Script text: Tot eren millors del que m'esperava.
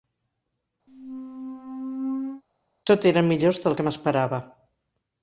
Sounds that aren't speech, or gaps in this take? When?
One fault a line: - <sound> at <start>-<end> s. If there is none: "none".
- squeak at 0.9-2.4 s